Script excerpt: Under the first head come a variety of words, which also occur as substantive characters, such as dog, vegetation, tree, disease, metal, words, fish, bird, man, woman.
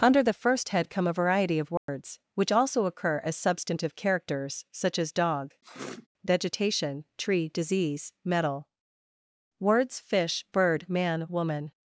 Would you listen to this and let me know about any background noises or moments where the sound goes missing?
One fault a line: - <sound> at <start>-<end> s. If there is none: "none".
- dropout at 1.8-1.9 s
- sniff at 5.6-6.1 s